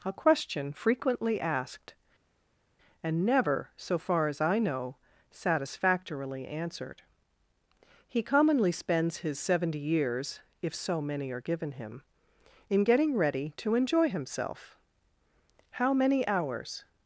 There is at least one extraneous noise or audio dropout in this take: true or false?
false